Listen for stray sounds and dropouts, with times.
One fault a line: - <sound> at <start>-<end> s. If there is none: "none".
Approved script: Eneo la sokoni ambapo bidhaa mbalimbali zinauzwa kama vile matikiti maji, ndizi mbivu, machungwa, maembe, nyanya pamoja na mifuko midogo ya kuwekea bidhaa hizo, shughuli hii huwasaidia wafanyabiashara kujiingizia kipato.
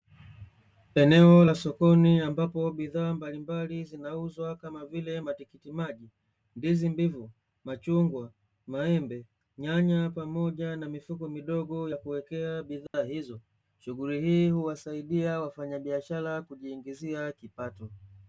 - dropout at 12.9-12.9 s